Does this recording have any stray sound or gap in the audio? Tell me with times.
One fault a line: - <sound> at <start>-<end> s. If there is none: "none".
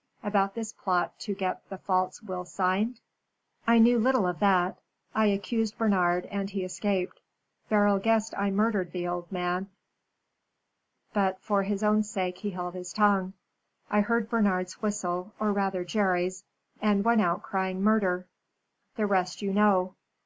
none